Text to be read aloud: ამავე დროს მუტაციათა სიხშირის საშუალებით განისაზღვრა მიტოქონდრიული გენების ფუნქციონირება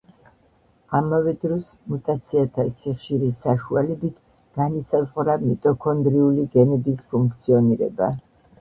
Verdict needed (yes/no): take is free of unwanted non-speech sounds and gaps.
yes